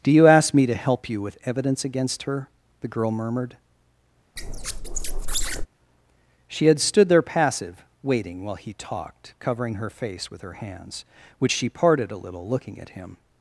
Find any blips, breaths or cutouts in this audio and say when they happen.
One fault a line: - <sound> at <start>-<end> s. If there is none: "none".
- squeak at 4.4-5.7 s